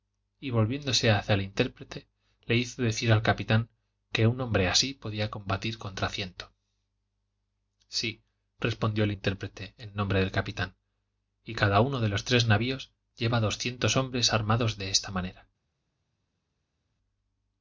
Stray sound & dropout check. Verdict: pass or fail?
pass